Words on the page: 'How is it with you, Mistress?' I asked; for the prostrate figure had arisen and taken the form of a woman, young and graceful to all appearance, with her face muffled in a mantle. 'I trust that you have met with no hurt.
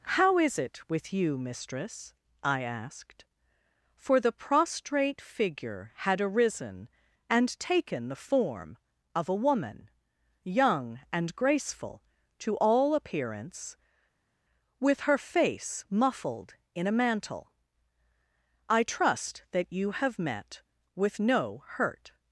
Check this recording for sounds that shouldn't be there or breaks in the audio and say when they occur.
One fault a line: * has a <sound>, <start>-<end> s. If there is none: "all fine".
all fine